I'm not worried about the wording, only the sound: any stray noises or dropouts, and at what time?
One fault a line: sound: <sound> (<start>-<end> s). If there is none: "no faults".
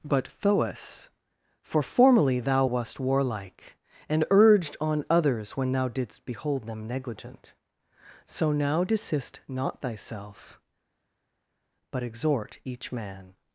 no faults